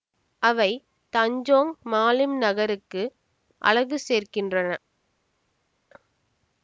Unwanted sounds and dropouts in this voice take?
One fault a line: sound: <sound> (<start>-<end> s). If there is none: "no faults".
no faults